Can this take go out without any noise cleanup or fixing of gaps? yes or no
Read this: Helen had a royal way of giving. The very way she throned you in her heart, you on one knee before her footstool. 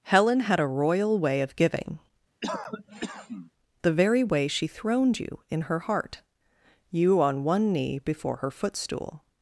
no